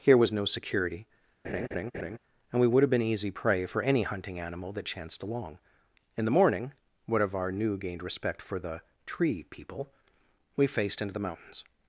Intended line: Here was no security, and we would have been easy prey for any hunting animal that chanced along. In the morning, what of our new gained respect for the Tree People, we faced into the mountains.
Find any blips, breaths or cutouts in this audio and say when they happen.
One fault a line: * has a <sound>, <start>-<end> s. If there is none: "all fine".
* has a laugh, 1.4-2.2 s